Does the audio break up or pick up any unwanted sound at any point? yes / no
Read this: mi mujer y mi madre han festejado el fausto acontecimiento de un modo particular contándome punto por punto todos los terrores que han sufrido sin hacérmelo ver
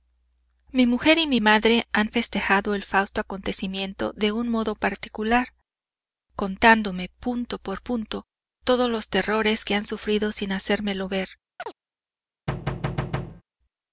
yes